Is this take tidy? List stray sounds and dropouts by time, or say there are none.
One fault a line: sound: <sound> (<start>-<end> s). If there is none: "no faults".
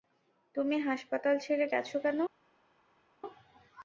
no faults